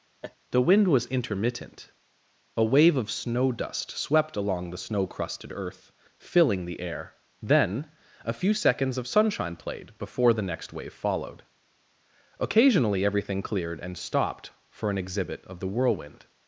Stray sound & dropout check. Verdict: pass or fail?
fail